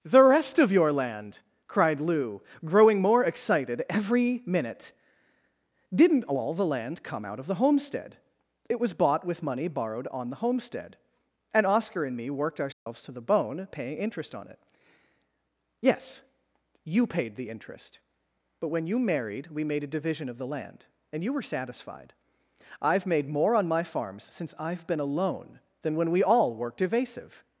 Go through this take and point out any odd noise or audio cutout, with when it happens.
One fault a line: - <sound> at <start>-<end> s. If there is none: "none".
- dropout at 12.7-12.9 s